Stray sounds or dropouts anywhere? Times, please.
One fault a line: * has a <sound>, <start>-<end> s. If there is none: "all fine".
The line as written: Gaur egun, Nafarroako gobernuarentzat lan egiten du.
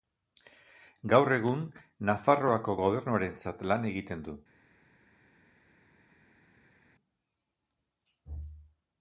all fine